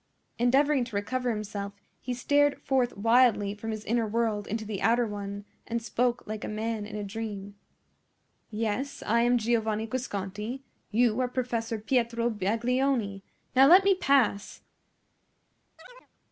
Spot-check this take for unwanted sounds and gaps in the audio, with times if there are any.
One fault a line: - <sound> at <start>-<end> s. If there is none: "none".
- chirp at 15.8-16.1 s